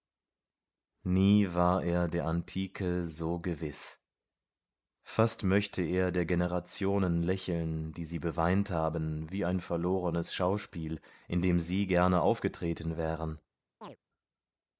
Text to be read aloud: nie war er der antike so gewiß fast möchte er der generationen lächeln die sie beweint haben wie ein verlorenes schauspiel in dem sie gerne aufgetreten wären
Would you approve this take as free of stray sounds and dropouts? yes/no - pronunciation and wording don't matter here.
no